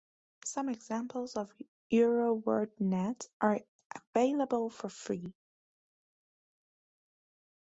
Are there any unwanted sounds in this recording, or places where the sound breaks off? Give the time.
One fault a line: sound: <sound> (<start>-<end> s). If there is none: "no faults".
no faults